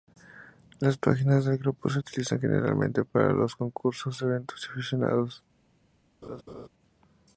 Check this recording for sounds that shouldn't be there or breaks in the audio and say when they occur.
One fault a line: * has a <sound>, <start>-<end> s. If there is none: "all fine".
* has a laugh, 6.2-6.7 s